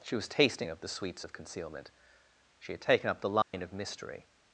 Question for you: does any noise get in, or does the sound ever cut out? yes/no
yes